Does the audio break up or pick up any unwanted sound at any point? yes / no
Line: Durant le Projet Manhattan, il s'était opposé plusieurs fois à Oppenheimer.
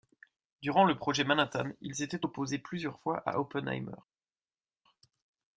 no